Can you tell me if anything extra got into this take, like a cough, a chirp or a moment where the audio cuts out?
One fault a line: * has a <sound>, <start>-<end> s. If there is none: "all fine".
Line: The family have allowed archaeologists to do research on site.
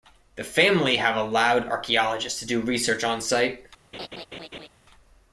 * has a laugh, 3.9-4.7 s